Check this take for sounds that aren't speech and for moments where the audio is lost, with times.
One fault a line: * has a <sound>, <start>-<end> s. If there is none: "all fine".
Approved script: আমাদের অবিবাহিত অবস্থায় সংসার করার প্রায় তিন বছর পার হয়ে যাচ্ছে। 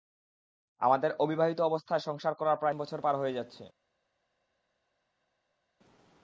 all fine